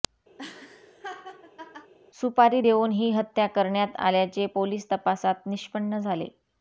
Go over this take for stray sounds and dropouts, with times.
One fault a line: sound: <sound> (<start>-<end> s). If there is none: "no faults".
sound: laugh (0.4-1.9 s)